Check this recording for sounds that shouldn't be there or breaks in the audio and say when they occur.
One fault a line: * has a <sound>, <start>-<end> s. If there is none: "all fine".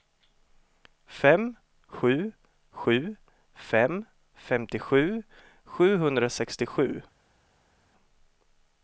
all fine